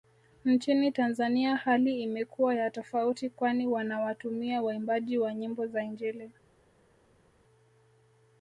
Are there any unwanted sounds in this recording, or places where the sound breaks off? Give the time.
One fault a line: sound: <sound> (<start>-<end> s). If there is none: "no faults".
no faults